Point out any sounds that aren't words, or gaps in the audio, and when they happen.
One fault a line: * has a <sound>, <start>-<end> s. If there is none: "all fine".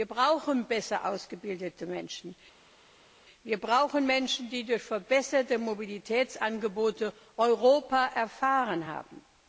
all fine